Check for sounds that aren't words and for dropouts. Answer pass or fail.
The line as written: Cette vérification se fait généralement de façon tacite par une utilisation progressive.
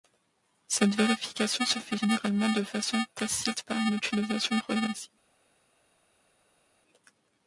pass